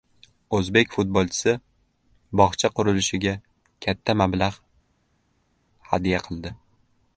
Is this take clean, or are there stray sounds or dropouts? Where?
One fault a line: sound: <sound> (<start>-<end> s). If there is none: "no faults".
no faults